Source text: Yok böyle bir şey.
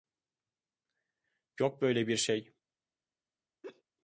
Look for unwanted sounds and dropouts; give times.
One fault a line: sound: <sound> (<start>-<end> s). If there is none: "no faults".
sound: laugh (3.6-3.8 s)